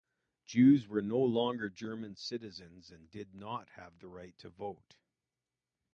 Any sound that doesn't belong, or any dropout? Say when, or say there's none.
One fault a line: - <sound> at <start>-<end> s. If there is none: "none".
none